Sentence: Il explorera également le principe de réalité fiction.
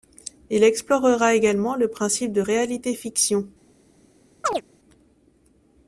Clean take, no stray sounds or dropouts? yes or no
no